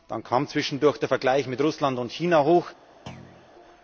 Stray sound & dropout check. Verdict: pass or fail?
fail